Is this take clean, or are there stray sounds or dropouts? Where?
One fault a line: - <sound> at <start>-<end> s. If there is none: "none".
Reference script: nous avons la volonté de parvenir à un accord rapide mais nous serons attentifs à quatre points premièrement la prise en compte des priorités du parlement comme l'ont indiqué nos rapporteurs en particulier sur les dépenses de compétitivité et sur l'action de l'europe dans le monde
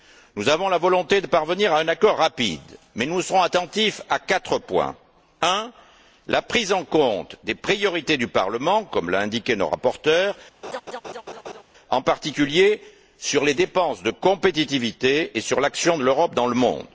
- laugh at 10.6-11.6 s